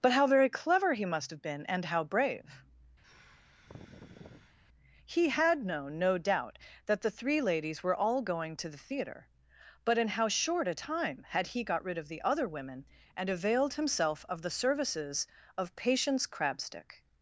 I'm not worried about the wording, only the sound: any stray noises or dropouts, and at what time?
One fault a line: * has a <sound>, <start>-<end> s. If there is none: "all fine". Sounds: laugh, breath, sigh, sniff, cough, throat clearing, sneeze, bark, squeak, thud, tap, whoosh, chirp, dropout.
* has a sigh, 3.0-4.6 s